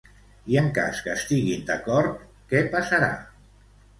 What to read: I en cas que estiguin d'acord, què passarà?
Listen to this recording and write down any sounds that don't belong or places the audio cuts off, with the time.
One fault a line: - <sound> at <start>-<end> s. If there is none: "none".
none